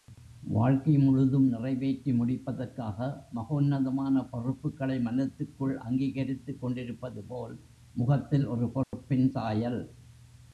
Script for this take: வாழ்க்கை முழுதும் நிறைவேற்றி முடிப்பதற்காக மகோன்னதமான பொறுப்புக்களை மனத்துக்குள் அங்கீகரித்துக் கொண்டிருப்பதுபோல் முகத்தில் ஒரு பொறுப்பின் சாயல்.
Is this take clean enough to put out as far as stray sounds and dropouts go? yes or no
no